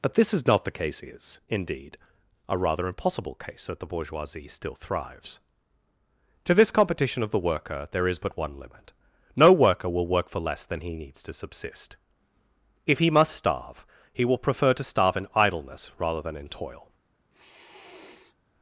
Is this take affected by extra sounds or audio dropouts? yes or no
yes